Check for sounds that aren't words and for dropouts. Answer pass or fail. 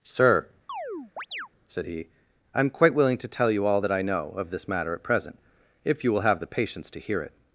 fail